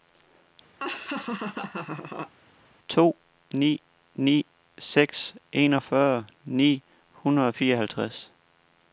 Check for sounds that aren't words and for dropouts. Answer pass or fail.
fail